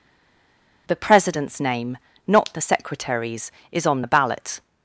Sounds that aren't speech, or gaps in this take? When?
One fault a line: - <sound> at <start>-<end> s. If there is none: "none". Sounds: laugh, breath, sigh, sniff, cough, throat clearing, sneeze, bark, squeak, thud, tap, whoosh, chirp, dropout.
none